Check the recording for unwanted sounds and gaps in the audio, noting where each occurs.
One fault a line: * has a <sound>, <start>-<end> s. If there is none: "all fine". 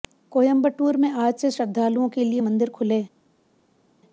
all fine